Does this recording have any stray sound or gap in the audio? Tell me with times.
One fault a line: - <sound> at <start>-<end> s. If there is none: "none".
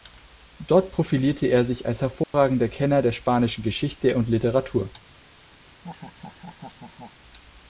- dropout at 2.2-2.3 s
- laugh at 5.7-7.2 s